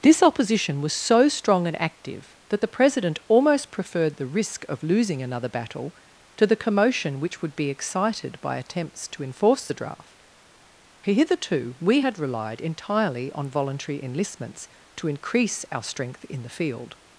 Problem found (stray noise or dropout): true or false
false